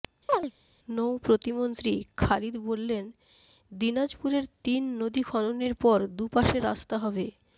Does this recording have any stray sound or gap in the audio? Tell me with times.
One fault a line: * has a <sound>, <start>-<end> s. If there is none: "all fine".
* has a chirp, 0.3-0.5 s